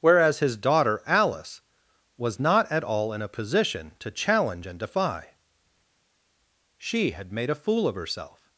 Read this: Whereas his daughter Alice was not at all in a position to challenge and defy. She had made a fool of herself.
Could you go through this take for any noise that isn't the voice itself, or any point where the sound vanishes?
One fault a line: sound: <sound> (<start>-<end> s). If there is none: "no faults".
no faults